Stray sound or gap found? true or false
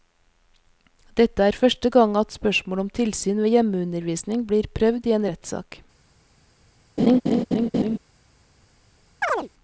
true